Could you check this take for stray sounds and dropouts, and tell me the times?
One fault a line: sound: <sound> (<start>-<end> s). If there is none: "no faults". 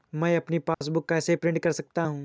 sound: dropout (0.7-0.8 s)